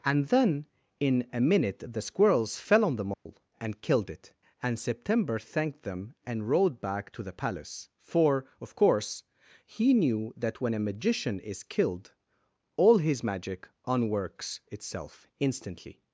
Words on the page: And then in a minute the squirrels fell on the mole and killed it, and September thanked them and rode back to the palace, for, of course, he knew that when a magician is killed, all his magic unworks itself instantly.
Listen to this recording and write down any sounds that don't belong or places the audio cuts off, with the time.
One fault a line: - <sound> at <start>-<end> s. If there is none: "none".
- dropout at 3.1-3.3 s